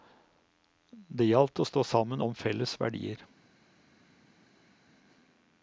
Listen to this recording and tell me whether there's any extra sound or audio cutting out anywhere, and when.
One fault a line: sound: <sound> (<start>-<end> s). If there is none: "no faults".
no faults